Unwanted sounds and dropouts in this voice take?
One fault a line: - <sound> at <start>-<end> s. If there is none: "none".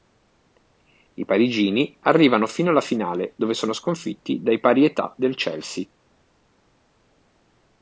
none